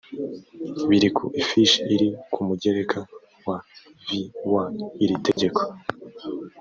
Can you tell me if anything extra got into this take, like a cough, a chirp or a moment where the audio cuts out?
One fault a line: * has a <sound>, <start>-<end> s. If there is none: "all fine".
* has a dropout, 5.3-5.4 s